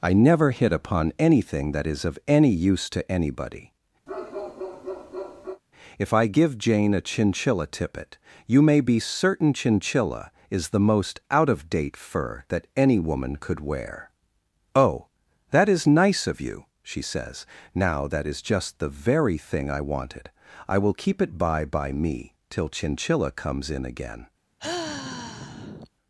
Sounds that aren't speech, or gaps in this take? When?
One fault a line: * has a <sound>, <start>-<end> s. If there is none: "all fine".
* has a bark, 4.1-5.6 s
* has a sigh, 24.6-25.9 s